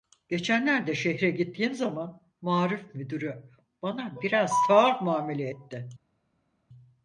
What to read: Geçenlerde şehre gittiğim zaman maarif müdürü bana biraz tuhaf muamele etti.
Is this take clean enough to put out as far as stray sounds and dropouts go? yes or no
yes